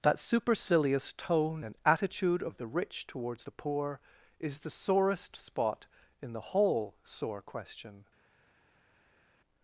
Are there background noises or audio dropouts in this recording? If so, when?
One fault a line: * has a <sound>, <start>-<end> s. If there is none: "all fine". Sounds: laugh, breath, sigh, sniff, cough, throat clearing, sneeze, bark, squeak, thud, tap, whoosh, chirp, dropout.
all fine